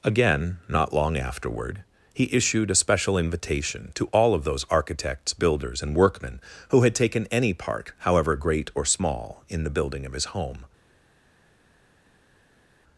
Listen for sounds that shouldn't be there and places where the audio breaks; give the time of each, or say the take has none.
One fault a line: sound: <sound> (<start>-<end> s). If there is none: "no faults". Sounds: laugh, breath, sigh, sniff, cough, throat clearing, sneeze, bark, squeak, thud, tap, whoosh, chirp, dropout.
no faults